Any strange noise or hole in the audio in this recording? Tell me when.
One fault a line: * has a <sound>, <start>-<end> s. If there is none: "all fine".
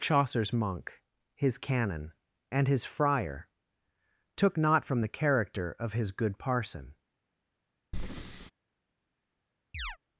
* has a breath, 7.9-8.5 s
* has a chirp, 9.7-10.0 s